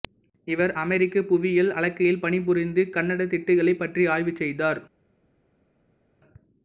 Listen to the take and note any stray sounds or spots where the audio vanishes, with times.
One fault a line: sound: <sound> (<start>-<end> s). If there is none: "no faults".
no faults